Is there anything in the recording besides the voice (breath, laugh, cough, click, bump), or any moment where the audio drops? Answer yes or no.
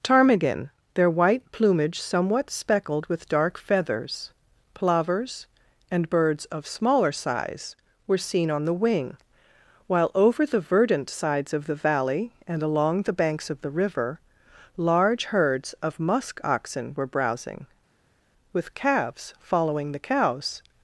no